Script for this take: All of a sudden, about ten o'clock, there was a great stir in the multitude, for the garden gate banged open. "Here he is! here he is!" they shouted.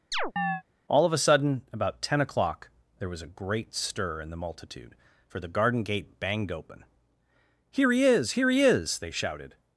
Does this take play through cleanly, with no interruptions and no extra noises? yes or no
no